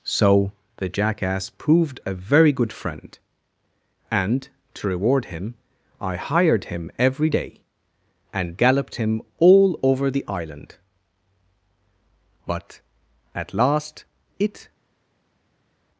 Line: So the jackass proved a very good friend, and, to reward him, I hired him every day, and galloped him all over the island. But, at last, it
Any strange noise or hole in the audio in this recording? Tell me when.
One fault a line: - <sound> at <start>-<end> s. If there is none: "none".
none